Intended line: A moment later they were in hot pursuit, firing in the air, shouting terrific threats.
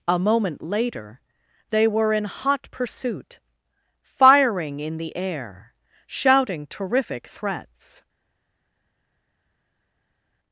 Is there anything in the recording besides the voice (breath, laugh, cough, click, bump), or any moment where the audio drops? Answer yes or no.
no